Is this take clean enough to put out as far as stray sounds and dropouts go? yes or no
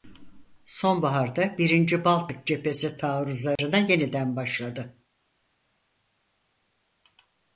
no